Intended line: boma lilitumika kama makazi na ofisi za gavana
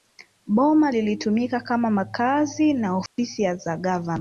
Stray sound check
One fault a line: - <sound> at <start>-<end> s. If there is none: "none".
- dropout at 3.1-3.2 s